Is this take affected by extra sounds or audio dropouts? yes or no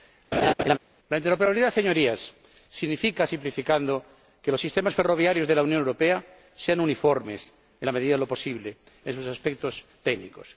yes